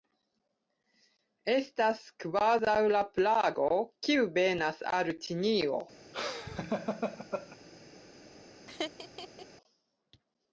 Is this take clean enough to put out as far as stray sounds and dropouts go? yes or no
no